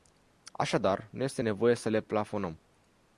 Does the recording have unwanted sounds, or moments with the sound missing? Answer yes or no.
no